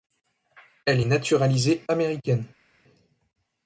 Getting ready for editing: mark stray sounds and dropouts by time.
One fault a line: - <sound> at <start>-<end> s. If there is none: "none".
none